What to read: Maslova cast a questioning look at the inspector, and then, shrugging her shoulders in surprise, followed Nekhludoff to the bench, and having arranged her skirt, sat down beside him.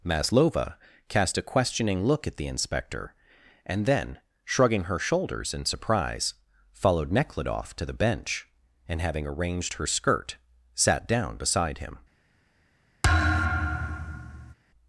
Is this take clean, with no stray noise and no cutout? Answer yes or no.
no